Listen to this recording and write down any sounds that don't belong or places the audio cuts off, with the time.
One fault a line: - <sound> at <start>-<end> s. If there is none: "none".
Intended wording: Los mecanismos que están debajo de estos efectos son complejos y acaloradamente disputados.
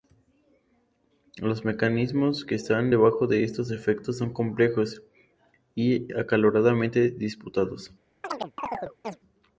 - chirp at 8.2-9.2 s